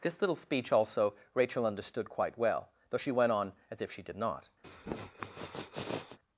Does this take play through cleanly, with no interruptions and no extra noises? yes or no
no